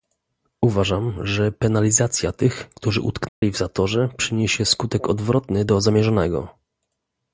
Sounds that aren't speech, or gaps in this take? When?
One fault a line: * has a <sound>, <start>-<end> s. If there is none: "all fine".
* has a dropout, 3.3-3.4 s